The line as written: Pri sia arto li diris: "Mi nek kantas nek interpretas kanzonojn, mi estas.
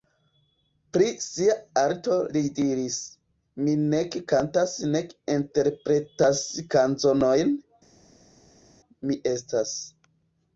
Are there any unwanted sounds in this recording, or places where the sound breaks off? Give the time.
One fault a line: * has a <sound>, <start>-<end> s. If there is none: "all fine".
all fine